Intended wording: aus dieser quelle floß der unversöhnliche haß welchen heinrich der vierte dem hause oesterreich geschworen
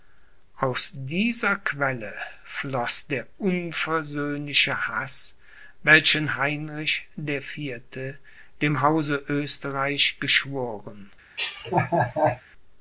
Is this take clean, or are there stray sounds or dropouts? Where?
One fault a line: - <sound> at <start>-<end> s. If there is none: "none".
- laugh at 11.4-12.4 s